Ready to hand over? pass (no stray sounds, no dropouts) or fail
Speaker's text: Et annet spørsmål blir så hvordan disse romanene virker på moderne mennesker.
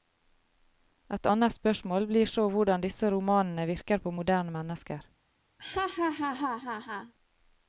fail